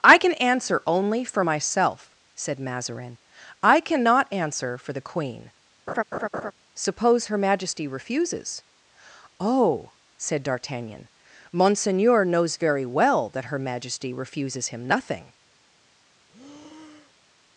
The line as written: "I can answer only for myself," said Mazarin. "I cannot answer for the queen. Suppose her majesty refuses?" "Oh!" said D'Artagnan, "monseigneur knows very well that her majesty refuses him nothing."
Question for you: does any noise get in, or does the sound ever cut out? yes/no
yes